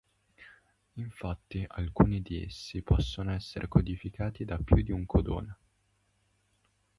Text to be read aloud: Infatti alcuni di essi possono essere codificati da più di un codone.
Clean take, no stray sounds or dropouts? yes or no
yes